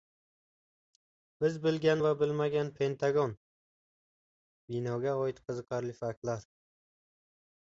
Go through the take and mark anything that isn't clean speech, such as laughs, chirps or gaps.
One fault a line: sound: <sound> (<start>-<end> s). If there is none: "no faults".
no faults